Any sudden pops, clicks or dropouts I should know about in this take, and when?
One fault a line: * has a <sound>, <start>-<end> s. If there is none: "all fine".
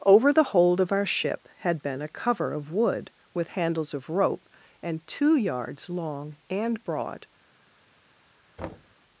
* has a thud, 8.6-9.0 s